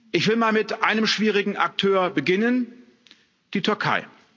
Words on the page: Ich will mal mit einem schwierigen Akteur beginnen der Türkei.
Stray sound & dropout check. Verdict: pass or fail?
pass